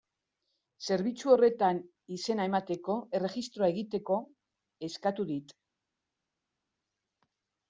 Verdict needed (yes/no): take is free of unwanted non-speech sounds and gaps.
yes